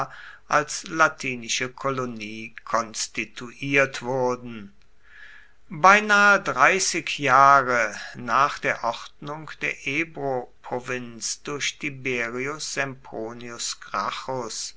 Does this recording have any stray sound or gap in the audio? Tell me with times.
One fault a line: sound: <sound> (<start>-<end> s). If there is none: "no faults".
no faults